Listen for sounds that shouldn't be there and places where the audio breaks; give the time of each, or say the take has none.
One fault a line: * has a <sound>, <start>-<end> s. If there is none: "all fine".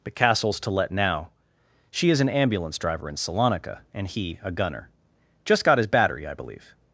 all fine